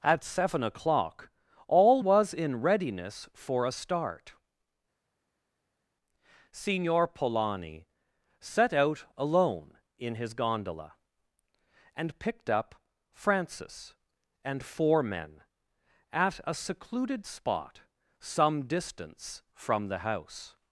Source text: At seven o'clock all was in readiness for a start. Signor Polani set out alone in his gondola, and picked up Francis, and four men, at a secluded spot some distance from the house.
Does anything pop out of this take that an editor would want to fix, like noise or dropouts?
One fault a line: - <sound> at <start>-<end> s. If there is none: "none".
none